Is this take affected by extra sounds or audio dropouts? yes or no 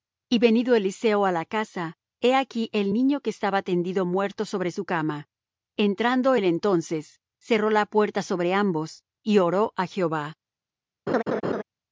yes